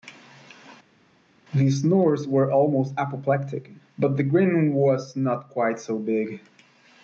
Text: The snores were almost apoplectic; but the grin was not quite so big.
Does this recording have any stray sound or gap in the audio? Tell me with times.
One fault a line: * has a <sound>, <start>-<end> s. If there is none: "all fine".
all fine